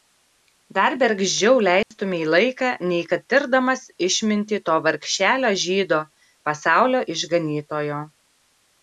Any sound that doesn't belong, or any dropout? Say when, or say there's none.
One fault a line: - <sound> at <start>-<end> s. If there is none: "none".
- dropout at 1.8-1.9 s